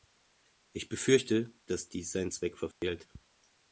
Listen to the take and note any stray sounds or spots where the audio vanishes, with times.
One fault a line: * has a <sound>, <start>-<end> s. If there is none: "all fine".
* has a dropout, 2.7-2.8 s